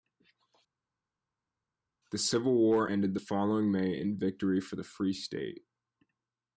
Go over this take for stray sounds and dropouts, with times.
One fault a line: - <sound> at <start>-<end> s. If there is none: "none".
none